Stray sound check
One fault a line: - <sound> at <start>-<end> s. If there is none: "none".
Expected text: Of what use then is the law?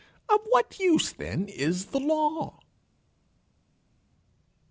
none